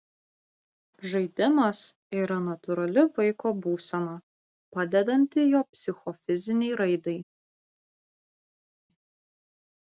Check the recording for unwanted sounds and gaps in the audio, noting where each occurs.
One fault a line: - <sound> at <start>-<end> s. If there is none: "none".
none